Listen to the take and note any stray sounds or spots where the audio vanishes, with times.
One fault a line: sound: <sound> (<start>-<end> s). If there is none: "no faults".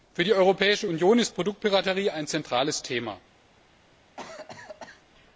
sound: cough (4.2-5.0 s)